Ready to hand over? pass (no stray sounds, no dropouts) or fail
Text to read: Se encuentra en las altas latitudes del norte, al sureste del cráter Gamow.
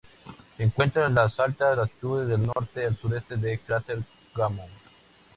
fail